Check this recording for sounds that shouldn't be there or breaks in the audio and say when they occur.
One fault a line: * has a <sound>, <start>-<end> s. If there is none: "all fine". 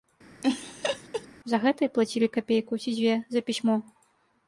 * has a laugh, 0.4-1.3 s